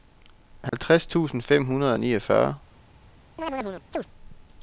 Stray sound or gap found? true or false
true